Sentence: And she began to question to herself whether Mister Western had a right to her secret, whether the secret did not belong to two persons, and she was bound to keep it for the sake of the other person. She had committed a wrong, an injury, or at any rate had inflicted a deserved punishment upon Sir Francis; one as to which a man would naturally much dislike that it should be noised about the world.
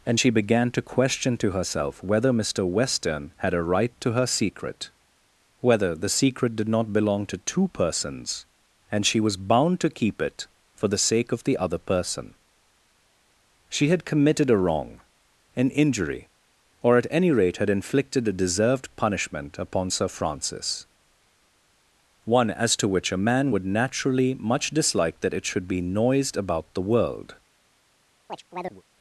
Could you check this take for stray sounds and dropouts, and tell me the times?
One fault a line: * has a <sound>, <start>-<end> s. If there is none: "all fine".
* has a chirp, 28.3-28.8 s